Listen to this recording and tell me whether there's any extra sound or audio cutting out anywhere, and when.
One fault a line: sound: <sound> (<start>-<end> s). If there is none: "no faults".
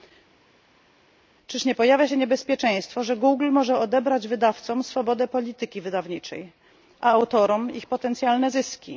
no faults